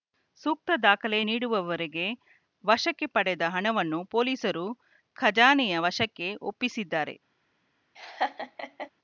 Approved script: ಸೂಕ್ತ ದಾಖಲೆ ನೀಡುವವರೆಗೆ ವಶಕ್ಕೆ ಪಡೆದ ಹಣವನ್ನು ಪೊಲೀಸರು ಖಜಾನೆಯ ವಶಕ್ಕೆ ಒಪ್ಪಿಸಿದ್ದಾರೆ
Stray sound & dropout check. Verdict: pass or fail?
fail